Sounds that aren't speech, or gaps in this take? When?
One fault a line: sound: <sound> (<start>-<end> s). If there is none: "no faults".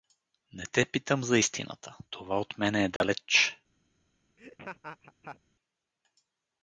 sound: dropout (3.0-3.0 s)
sound: laugh (4.4-5.4 s)